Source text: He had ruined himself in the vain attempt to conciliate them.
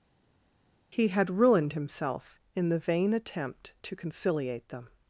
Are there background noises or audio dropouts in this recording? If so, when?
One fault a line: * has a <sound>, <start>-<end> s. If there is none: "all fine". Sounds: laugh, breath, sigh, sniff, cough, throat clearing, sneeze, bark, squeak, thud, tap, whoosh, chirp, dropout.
all fine